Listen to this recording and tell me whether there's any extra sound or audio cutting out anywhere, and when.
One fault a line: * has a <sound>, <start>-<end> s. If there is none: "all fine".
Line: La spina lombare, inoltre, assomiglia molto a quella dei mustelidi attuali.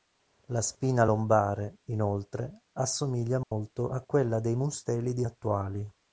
* has a dropout, 3.4-3.5 s